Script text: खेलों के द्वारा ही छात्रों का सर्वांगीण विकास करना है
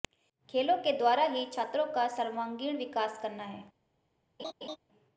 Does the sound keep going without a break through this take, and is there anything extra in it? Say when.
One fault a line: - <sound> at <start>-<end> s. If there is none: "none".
- laugh at 4.4-4.8 s